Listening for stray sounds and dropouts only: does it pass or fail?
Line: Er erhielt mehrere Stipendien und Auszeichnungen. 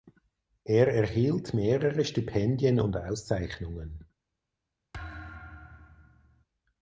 fail